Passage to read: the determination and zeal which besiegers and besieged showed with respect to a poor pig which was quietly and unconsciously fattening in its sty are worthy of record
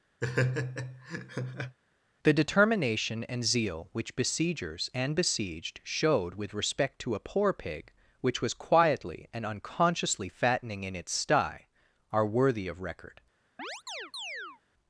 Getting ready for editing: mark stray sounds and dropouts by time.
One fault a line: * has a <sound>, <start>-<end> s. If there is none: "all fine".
* has a laugh, 0.2-1.8 s
* has a chirp, 13.6-14.6 s